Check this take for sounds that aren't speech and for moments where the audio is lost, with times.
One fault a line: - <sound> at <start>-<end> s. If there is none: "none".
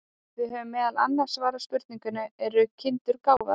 - dropout at 3.4-3.4 s